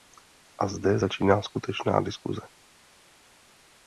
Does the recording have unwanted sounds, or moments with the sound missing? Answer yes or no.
no